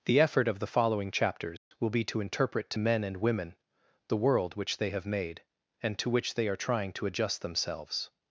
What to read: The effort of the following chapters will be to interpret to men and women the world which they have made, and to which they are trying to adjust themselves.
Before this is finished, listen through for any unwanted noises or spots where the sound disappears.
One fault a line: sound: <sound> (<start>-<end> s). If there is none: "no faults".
sound: dropout (1.6-1.7 s)